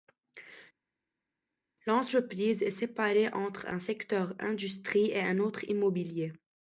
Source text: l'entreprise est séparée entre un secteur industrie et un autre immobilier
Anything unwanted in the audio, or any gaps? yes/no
no